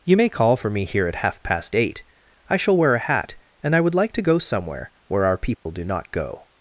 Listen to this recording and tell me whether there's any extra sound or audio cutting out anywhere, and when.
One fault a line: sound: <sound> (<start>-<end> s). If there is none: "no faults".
sound: dropout (5.5-5.7 s)